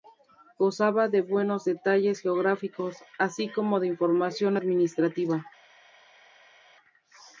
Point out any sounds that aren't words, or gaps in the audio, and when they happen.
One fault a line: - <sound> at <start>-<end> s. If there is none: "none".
none